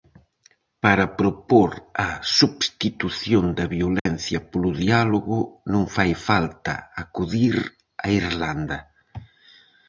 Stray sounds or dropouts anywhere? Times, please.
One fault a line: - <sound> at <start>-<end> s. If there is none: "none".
- dropout at 4.0-4.1 s